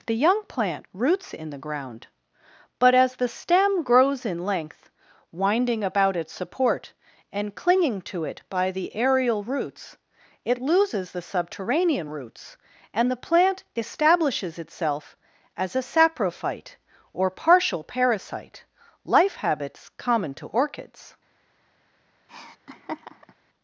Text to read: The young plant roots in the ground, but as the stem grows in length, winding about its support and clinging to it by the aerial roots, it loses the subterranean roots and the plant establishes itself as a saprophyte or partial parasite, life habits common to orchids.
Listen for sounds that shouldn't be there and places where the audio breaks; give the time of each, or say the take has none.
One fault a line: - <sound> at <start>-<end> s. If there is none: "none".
- laugh at 22.3-23.3 s